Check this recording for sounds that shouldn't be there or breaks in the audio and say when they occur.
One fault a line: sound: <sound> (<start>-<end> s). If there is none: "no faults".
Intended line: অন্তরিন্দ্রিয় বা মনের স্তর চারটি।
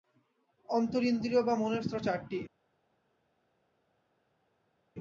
no faults